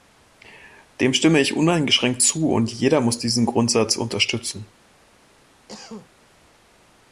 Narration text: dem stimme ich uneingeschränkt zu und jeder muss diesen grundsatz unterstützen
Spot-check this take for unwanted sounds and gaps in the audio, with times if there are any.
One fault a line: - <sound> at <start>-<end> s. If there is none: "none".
- cough at 5.7-6.1 s